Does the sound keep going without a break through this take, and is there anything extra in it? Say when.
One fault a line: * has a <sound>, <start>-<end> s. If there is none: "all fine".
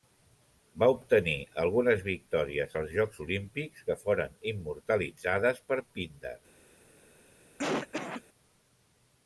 * has a cough, 7.6-8.2 s